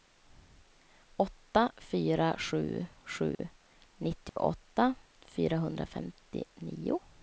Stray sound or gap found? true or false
true